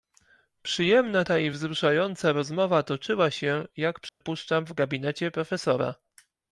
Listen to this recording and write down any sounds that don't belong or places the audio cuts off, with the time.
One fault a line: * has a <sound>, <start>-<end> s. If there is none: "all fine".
* has a dropout, 4.1-4.2 s